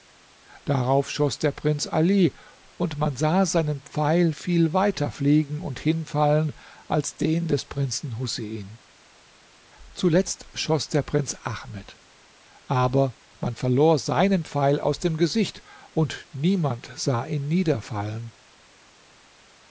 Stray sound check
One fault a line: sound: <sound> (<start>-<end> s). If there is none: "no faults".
no faults